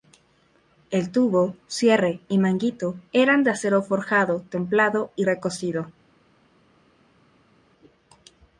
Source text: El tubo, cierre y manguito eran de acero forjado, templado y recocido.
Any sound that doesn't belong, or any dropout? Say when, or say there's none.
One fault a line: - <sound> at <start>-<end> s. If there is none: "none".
none